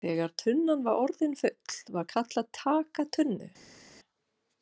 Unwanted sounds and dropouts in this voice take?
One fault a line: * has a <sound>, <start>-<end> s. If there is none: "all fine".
all fine